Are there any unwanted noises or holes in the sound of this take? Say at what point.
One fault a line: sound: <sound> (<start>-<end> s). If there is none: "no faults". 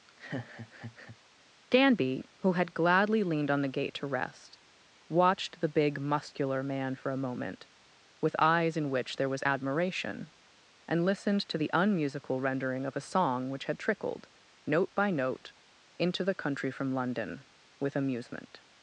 sound: laugh (0.1-1.2 s)